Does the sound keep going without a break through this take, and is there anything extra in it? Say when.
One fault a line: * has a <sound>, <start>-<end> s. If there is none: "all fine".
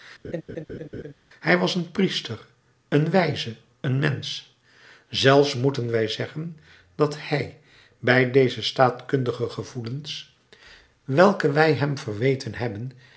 * has a laugh, 0.2-1.1 s